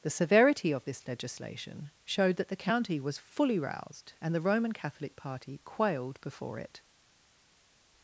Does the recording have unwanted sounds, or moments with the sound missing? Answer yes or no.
no